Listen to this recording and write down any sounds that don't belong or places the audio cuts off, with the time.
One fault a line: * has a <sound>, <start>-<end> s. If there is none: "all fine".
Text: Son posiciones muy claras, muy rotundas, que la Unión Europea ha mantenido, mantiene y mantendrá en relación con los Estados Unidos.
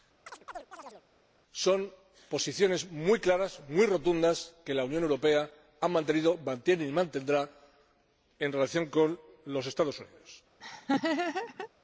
* has a chirp, 0.3-1.0 s
* has a laugh, 10.6-11.7 s